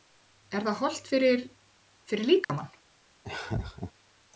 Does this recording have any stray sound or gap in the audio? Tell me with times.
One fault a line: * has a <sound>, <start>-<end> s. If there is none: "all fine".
* has a dropout, 2.4-2.5 s
* has a laugh, 3.2-3.9 s